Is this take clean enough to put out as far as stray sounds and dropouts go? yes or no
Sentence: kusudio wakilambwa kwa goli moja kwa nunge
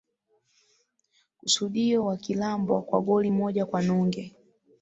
yes